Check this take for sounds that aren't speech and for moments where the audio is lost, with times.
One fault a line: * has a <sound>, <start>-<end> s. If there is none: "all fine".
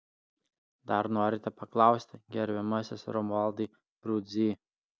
all fine